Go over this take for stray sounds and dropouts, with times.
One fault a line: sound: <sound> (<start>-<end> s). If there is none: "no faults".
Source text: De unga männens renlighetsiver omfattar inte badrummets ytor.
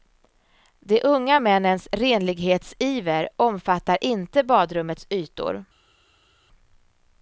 no faults